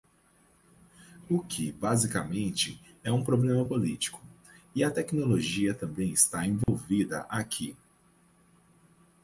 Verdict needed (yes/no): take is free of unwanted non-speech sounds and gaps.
no